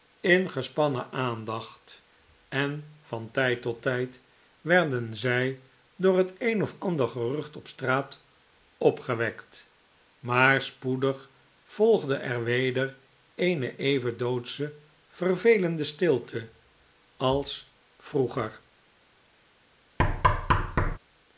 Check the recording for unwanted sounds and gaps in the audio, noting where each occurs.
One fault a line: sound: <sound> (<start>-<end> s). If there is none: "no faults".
sound: thud (20.0-21.0 s)